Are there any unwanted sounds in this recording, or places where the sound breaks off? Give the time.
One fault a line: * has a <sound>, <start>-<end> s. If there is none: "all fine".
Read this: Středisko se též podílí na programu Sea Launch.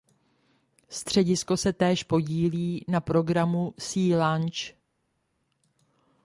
all fine